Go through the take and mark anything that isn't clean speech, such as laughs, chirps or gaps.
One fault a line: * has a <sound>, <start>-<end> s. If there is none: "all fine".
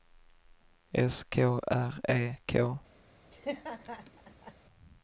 * has a laugh, 3.3-4.5 s